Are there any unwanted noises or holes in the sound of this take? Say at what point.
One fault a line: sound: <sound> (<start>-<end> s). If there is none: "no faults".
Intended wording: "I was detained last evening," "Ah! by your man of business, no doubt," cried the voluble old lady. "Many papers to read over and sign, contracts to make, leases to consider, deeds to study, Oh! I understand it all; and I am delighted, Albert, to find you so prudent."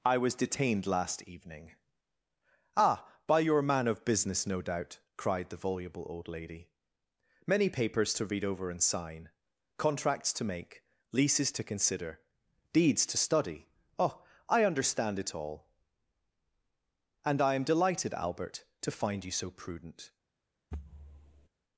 sound: thud (20.7-21.5 s)